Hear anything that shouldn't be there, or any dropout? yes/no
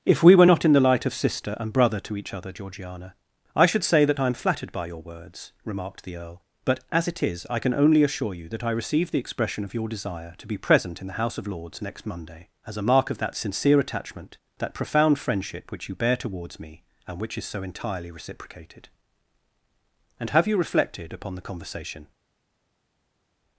no